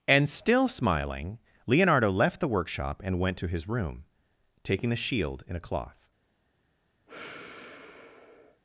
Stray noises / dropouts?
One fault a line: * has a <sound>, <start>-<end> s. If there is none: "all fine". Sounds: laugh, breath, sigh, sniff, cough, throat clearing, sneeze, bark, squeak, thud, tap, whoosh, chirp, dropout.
* has a sigh, 7.1-8.6 s